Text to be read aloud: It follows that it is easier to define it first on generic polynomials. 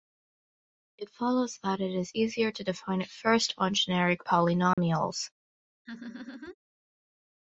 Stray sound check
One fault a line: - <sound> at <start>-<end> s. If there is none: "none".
- dropout at 4.7-4.8 s
- laugh at 5.9-6.6 s